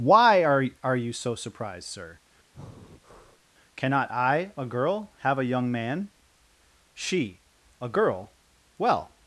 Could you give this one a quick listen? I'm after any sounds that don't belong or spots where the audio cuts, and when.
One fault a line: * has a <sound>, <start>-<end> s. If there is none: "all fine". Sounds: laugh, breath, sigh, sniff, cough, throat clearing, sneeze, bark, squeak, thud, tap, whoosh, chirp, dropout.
* has a breath, 2.5-3.4 s